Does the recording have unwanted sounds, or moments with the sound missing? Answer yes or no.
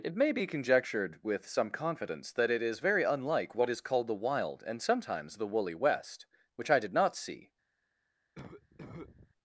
yes